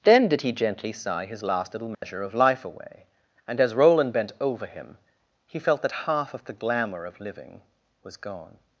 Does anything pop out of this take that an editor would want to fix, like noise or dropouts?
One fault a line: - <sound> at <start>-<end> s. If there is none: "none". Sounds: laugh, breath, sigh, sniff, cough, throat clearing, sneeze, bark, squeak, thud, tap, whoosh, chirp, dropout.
- dropout at 1.9-2.0 s